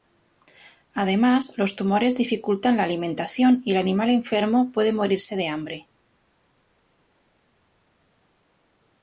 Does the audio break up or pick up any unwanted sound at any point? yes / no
no